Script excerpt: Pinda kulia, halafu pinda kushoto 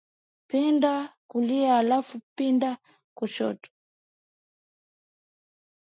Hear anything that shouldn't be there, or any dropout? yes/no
no